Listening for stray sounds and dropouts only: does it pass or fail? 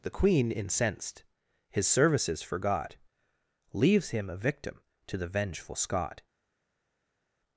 pass